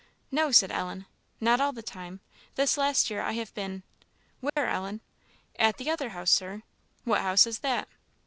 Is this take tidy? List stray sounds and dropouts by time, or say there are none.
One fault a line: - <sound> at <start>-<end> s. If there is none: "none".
- dropout at 4.5-4.6 s